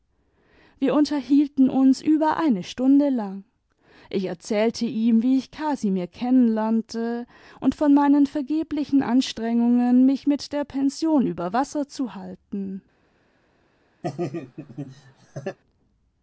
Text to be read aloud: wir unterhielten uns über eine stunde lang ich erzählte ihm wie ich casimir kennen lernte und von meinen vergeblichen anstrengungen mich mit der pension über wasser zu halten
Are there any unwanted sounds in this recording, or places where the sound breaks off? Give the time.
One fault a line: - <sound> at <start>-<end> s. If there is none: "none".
- laugh at 14.0-15.6 s